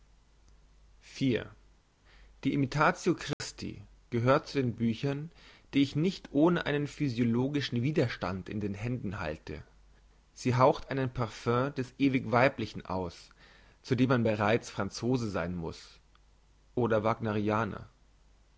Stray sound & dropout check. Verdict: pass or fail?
fail